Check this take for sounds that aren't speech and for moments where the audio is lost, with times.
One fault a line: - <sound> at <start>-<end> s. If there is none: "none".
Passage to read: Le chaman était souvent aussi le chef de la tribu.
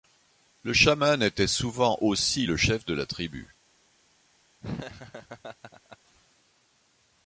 - laugh at 4.6-6.0 s